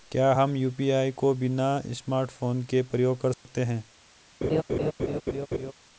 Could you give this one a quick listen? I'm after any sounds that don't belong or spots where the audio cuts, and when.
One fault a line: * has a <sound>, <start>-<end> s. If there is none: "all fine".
* has a dropout, 3.3-3.5 s
* has a laugh, 4.4-5.7 s